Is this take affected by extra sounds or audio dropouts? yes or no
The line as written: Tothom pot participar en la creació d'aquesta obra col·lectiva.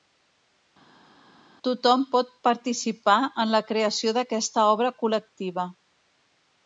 no